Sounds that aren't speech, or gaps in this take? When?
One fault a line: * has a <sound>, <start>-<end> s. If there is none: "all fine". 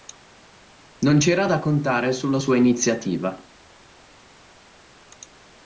all fine